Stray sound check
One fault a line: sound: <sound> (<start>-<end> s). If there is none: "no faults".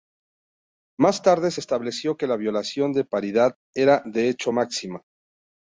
no faults